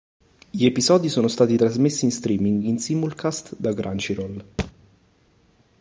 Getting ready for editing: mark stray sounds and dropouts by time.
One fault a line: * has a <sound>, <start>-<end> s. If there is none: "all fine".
* has a thud, 4.6-4.7 s